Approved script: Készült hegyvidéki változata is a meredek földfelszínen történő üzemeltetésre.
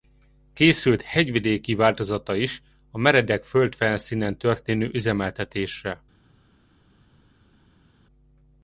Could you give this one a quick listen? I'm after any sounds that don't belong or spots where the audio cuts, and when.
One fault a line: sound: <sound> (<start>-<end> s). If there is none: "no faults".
no faults